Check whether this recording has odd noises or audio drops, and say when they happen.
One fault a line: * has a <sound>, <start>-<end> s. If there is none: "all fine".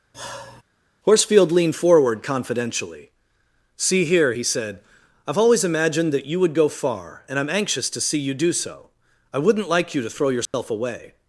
* has a sigh, 0.1-0.6 s
* has a dropout, 10.5-10.5 s